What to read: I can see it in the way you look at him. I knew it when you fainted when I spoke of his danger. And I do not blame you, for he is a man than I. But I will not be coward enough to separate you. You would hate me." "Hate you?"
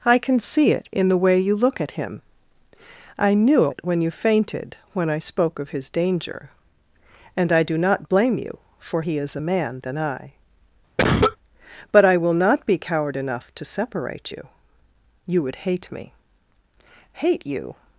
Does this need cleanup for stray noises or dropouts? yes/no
yes